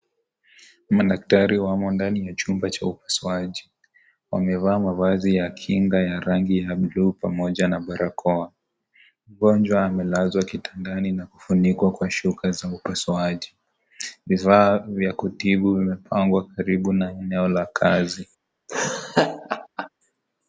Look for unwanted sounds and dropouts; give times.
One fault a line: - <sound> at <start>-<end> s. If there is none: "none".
- laugh at 18.7-19.9 s